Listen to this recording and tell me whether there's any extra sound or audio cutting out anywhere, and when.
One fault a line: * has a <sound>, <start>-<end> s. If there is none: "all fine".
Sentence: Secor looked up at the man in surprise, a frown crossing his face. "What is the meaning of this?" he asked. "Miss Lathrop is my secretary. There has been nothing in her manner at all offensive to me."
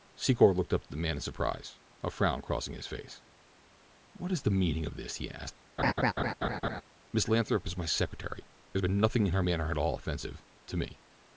* has a laugh, 5.8-6.8 s